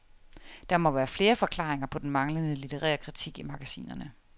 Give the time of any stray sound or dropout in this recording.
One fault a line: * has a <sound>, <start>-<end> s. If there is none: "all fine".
all fine